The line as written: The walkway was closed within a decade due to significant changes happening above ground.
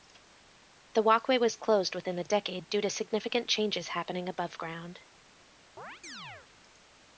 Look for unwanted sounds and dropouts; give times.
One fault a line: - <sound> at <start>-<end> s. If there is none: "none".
- chirp at 5.8-6.5 s